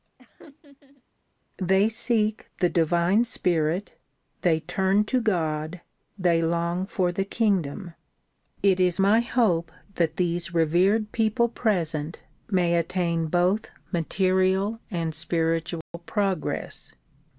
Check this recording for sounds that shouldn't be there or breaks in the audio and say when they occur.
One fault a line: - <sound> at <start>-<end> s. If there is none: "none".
- laugh at 0.2-1.0 s
- dropout at 15.8-15.9 s